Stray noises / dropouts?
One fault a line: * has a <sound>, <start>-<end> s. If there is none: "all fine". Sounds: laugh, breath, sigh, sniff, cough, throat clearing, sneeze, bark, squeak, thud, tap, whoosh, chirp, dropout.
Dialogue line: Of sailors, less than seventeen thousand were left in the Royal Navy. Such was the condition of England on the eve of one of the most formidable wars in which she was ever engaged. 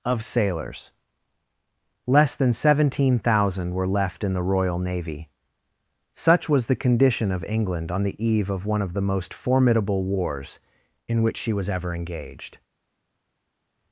all fine